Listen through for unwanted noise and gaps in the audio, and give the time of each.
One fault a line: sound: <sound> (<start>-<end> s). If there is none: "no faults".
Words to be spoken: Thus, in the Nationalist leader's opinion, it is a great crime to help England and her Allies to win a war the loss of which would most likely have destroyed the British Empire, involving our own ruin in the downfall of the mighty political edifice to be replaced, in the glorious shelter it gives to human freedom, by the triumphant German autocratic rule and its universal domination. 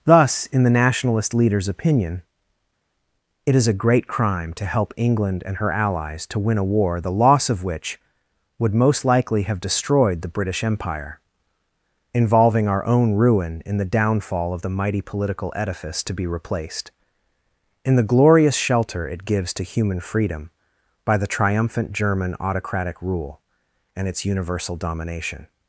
no faults